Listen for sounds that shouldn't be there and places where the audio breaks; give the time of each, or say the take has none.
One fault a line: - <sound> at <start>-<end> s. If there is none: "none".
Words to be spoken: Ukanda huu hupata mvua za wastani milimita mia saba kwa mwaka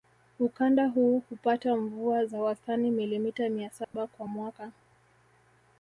- dropout at 3.8-3.9 s